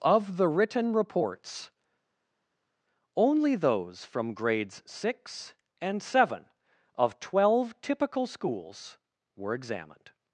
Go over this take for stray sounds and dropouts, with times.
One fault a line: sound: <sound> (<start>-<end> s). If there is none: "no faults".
no faults